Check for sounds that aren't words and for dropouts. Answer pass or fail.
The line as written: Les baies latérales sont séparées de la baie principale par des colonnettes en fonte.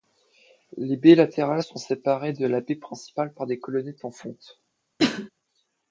fail